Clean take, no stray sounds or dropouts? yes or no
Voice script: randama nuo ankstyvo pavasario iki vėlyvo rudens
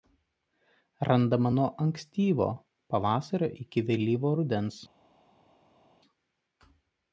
yes